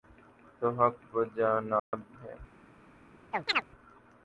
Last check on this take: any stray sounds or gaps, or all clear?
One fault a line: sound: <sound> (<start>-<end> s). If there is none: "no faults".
sound: dropout (1.8-1.9 s)
sound: chirp (3.3-3.7 s)